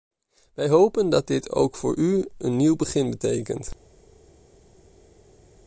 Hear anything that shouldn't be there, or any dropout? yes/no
no